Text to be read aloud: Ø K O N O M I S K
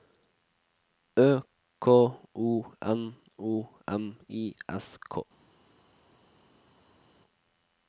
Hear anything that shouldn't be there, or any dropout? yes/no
no